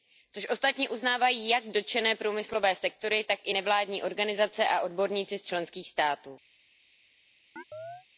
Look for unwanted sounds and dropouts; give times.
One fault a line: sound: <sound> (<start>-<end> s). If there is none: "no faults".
sound: chirp (7.6-8.1 s)